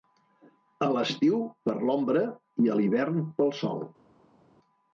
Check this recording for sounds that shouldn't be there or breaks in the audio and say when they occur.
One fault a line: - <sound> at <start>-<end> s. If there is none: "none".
none